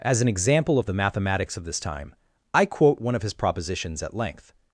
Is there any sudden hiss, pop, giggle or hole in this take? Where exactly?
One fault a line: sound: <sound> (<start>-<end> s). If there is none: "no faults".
no faults